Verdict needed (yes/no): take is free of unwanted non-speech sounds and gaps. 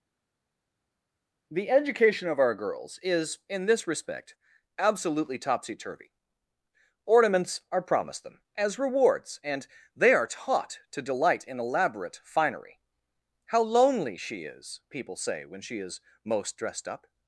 yes